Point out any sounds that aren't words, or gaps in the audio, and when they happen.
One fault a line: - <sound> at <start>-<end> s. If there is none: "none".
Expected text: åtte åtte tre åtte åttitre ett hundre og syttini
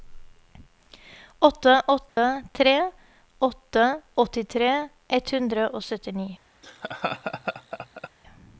- dropout at 2.1-2.2 s
- laugh at 6.6-8.1 s